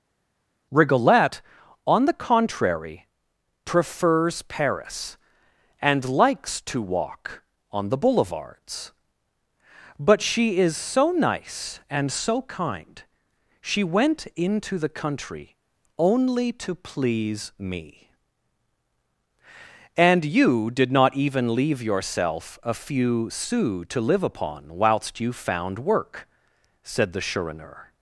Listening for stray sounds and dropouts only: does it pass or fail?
pass